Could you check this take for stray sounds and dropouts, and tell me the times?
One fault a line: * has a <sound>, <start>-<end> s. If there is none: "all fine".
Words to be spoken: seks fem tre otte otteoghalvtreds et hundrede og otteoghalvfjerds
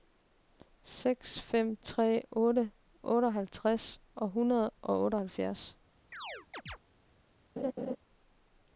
* has a chirp, 6.1-6.8 s
* has a laugh, 7.6-8.0 s